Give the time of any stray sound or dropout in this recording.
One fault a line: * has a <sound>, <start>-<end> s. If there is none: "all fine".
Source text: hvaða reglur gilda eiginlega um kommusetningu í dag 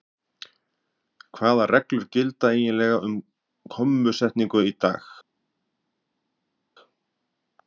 all fine